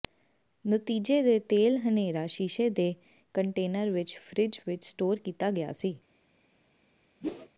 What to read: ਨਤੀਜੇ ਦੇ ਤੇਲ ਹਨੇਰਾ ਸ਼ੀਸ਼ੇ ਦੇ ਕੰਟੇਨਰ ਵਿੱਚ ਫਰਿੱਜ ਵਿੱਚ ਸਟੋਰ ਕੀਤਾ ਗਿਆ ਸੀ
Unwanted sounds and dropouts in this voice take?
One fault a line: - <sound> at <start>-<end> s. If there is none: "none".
- whoosh at 7.2-7.5 s